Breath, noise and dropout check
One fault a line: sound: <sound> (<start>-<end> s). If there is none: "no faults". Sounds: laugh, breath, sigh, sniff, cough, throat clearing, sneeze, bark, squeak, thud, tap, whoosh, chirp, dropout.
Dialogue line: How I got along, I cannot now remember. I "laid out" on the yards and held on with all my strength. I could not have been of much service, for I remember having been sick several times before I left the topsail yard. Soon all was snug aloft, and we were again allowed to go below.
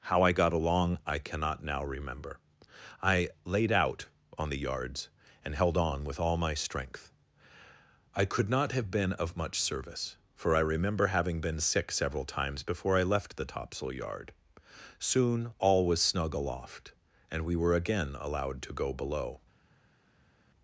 no faults